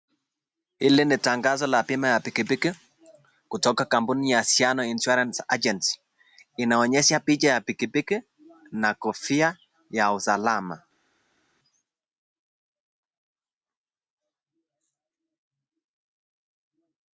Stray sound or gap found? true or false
false